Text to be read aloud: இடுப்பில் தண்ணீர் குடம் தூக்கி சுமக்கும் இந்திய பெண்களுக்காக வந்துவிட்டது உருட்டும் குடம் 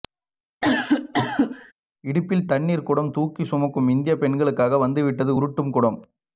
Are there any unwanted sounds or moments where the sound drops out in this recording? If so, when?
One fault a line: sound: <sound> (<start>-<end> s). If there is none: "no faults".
sound: cough (0.6-1.7 s)